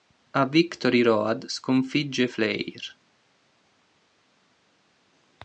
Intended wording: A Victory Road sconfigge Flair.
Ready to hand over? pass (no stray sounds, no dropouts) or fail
pass